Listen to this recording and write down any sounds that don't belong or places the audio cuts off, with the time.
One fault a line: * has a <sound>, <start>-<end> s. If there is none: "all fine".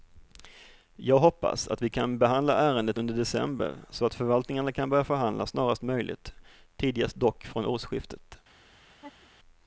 * has a laugh, 8.9-9.3 s